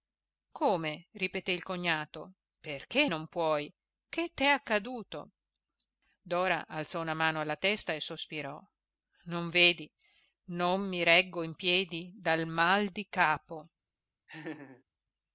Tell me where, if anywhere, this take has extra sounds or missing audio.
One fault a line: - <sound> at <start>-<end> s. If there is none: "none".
- laugh at 14.3-14.8 s